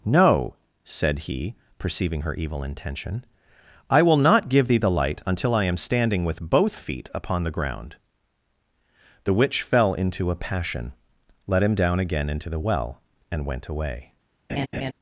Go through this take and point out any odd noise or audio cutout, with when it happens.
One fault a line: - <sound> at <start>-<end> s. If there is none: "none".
- laugh at 14.5-14.9 s